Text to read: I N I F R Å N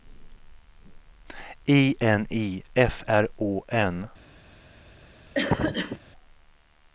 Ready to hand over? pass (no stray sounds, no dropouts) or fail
fail